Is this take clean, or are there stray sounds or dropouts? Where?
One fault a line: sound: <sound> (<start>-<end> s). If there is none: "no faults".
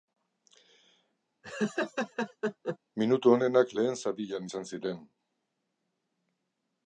sound: laugh (1.4-2.8 s)